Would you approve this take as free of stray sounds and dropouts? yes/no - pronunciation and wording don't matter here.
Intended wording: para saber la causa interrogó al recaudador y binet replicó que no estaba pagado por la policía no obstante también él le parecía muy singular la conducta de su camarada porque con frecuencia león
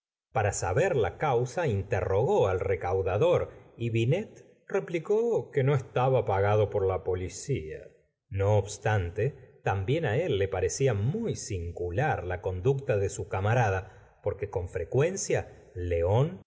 yes